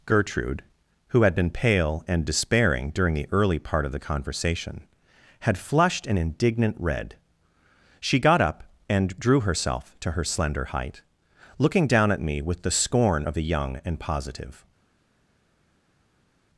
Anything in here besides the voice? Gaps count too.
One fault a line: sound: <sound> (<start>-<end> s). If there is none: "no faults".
no faults